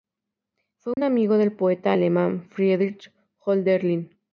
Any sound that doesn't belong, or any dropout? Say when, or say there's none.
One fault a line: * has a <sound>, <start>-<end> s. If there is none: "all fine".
* has a dropout, 0.9-1.0 s